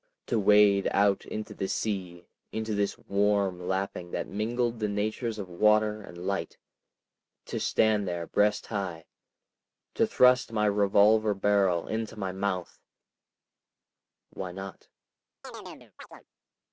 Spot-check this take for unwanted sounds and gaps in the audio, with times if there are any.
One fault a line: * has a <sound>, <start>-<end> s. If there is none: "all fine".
* has a chirp, 15.4-16.2 s